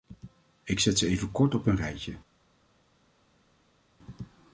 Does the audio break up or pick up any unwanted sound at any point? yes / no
no